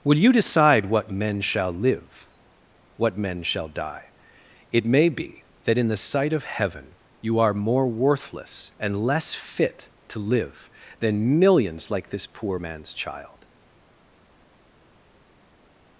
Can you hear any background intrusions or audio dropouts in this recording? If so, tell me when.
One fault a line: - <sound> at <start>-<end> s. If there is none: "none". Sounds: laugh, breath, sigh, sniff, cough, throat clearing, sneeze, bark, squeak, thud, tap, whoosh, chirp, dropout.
none